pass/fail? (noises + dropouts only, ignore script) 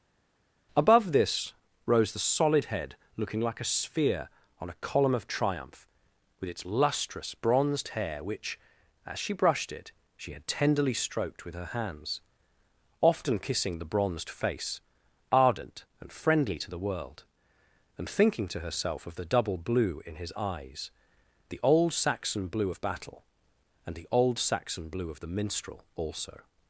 pass